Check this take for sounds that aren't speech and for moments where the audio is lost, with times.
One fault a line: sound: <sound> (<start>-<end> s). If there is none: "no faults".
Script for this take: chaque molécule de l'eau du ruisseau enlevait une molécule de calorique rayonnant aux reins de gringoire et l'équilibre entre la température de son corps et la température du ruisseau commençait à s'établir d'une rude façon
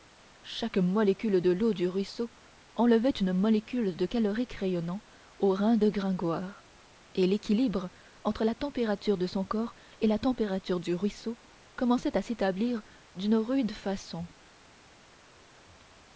no faults